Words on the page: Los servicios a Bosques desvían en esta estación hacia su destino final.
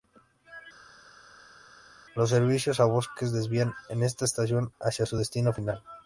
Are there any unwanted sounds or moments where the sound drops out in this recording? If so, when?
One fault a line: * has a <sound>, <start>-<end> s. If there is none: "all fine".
all fine